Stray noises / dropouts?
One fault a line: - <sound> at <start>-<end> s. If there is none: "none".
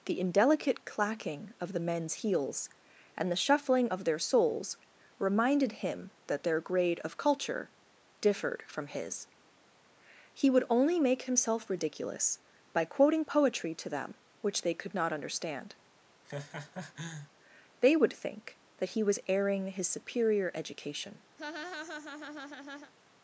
- laugh at 16.2-17.3 s
- laugh at 21.4-22.9 s